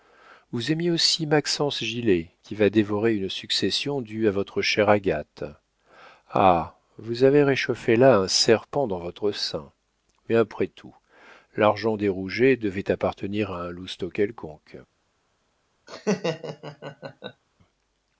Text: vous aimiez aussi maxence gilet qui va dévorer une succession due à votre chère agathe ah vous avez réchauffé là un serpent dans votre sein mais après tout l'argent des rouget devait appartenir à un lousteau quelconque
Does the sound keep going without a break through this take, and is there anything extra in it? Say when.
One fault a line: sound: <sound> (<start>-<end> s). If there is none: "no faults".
sound: laugh (15.9-17.4 s)